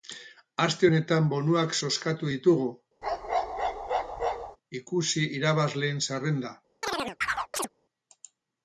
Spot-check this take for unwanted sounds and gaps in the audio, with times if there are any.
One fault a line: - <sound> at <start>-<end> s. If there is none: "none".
- bark at 3.0-4.6 s
- chirp at 6.8-7.7 s